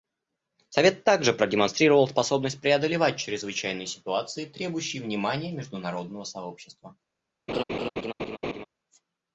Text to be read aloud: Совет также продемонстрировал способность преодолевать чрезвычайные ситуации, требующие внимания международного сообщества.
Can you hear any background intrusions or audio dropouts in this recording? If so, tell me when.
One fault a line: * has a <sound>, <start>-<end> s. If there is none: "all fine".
* has a laugh, 7.5-8.7 s